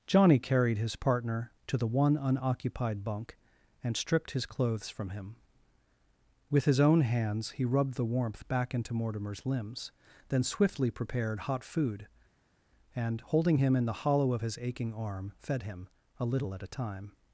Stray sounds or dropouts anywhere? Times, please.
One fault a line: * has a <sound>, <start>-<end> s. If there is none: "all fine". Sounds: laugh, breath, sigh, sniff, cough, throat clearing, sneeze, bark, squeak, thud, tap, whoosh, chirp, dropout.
all fine